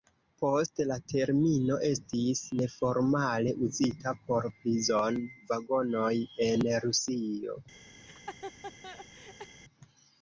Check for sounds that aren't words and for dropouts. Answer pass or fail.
fail